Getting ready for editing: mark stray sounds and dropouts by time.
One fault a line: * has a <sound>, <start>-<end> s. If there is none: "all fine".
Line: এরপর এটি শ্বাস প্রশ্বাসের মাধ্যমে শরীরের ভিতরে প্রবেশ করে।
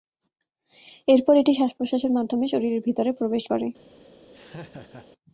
* has a laugh, 4.3-5.1 s